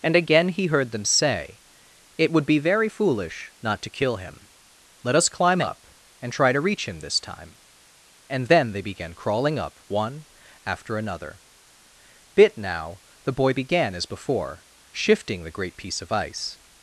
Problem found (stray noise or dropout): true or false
false